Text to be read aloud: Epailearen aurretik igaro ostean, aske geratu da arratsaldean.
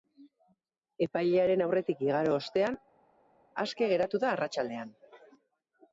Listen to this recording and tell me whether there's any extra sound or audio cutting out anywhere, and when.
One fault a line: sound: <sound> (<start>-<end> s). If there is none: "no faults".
no faults